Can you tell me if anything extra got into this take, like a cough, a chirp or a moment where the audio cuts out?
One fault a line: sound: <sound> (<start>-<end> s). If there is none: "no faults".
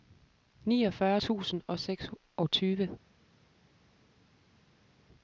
no faults